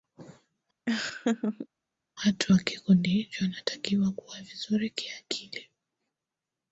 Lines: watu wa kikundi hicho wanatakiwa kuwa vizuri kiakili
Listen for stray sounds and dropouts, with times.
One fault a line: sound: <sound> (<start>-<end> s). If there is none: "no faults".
sound: laugh (0.9-1.7 s)